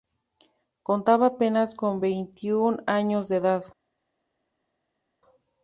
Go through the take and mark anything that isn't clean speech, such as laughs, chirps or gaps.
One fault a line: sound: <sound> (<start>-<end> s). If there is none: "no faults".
no faults